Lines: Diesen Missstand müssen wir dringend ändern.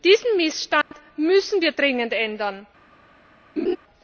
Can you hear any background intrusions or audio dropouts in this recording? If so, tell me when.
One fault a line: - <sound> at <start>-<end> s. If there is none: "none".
- dropout at 0.8-0.9 s
- laugh at 3.6-3.8 s